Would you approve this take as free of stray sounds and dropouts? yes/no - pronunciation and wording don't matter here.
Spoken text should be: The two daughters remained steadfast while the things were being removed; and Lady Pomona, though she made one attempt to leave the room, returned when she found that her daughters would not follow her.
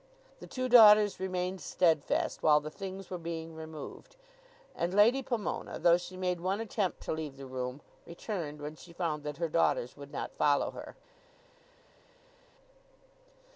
yes